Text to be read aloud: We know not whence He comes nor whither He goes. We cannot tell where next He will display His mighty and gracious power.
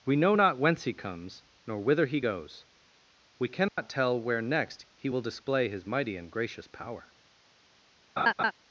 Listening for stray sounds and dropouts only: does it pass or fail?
fail